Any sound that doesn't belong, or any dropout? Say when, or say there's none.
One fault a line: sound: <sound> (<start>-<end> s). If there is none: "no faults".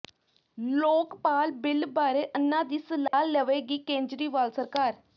sound: dropout (3.1-3.1 s)